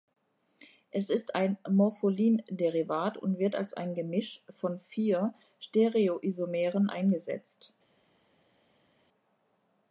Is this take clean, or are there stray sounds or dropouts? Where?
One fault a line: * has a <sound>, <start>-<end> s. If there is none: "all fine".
all fine